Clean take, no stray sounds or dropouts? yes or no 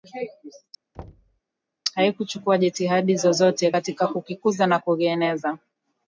no